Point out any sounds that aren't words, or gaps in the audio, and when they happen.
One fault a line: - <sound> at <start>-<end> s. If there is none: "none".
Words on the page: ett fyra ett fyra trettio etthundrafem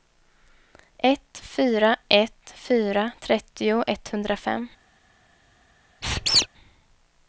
- squeak at 6.0-6.5 s